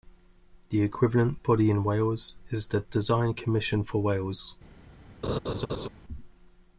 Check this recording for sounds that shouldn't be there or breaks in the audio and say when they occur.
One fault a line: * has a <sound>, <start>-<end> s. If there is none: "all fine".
* has a laugh, 5.2-5.9 s